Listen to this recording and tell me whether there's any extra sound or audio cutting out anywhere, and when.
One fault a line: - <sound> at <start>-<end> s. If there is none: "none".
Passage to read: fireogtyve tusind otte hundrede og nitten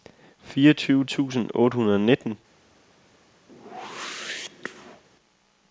- whoosh at 3.5-5.0 s